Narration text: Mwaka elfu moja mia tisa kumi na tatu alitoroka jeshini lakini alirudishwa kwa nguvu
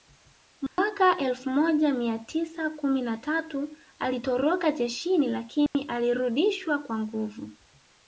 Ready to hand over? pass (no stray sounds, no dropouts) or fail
fail